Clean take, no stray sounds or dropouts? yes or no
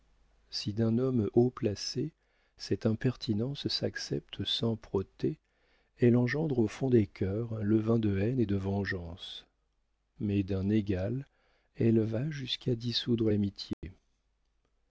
no